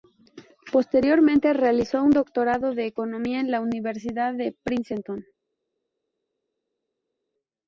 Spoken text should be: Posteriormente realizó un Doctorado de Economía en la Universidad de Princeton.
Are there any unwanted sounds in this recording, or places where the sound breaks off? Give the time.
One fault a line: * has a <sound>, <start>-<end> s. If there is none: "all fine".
all fine